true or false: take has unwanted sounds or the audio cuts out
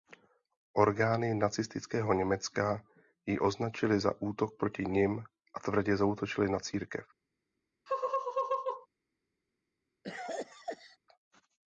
true